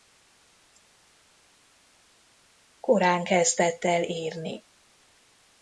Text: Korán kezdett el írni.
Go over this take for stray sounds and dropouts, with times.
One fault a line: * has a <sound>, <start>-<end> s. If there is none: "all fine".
all fine